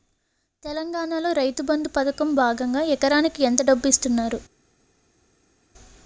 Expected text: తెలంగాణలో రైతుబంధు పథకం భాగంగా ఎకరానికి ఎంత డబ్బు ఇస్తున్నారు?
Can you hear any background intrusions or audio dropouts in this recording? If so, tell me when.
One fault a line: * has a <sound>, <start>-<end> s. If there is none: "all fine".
all fine